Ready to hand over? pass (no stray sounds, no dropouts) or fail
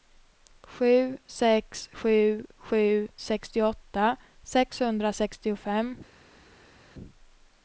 pass